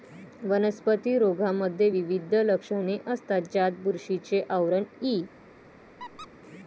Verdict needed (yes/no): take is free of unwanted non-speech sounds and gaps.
no